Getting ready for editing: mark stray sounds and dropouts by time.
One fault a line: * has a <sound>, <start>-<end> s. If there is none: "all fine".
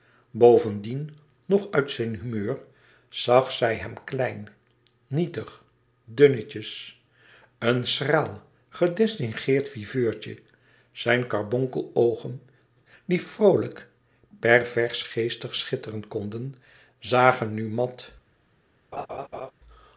* has a laugh, 18.9-19.5 s